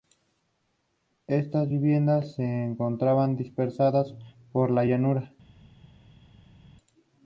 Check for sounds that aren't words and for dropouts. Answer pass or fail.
pass